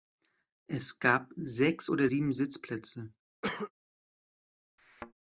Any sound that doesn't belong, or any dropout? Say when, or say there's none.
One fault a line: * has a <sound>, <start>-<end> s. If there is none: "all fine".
* has a cough, 3.4-3.7 s
* has a thud, 4.8-5.1 s